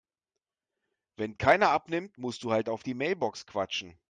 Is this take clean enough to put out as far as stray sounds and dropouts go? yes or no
yes